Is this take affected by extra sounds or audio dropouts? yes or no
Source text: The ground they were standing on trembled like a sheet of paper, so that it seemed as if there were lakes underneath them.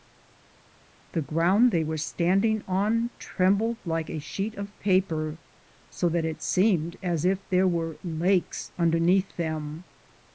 no